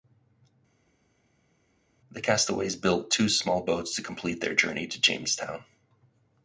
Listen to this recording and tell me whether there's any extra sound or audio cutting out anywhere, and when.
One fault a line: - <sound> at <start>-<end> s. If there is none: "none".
none